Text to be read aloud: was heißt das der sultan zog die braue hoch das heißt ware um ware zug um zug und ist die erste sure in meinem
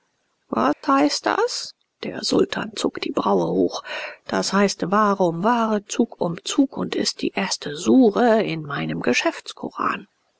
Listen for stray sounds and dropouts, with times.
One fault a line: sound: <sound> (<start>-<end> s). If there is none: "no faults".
sound: dropout (0.7-0.8 s)